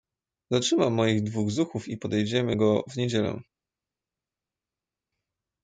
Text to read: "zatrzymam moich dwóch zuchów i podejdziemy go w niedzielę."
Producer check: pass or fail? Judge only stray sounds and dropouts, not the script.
pass